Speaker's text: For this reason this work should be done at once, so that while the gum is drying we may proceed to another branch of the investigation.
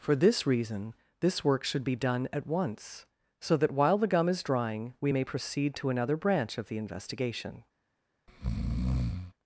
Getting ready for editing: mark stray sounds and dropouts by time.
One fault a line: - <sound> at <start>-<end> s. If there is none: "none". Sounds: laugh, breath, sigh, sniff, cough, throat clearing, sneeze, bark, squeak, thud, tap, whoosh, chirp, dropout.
- breath at 8.3-9.3 s